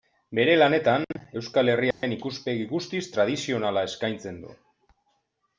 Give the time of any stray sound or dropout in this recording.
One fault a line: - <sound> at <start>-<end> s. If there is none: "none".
- dropout at 1.9-2.0 s